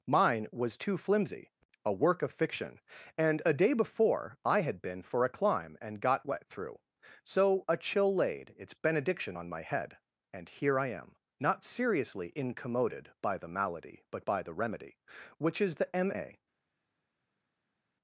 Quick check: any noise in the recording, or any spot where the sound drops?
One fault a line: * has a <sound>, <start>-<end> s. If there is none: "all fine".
all fine